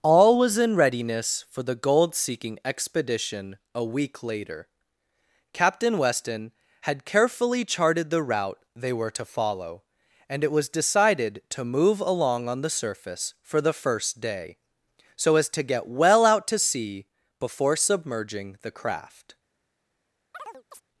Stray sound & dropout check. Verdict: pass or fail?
fail